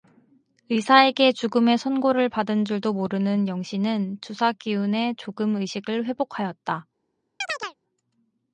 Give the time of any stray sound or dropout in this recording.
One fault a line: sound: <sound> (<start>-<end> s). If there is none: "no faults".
sound: chirp (7.4-7.7 s)